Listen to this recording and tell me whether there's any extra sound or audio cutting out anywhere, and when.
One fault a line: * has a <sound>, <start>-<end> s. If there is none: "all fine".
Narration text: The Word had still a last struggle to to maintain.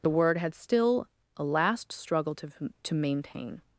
all fine